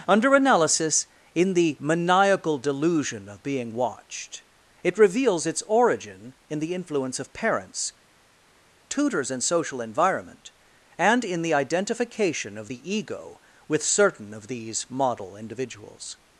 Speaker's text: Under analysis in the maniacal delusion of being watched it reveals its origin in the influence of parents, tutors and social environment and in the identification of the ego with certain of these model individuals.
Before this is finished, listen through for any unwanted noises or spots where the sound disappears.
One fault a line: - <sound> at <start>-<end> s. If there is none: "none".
none